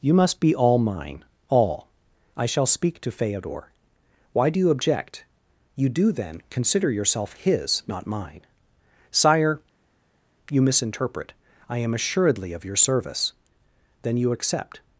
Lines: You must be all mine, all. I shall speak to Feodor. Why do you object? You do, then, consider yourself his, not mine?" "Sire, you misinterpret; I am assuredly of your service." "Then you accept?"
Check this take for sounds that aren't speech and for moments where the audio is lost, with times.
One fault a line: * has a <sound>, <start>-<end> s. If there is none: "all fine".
all fine